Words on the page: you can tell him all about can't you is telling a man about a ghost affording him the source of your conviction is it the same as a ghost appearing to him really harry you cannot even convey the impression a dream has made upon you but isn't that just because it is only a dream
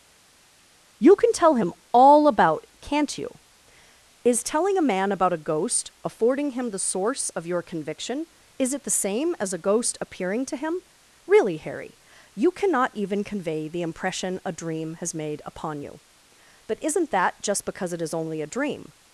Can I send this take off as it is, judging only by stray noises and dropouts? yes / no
yes